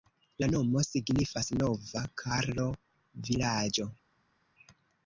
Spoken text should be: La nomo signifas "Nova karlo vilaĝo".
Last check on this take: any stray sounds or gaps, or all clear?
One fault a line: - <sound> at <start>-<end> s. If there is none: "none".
none